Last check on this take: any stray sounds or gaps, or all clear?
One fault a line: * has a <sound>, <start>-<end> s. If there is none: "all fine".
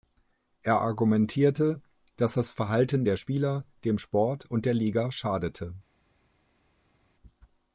all fine